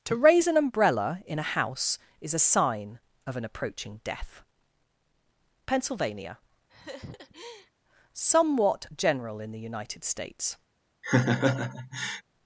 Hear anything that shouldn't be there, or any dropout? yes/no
yes